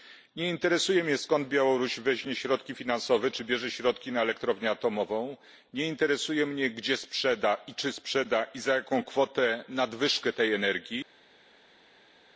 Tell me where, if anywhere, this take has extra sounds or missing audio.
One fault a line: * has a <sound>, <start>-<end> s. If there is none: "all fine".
all fine